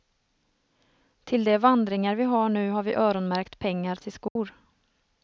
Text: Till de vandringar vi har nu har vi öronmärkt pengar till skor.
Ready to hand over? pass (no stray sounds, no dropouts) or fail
fail